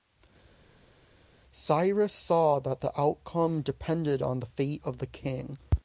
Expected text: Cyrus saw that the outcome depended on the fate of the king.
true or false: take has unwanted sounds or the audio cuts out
false